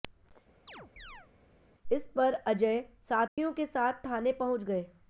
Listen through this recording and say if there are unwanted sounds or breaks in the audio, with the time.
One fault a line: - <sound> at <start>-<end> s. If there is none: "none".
- chirp at 0.7-1.3 s
- dropout at 3.3-3.4 s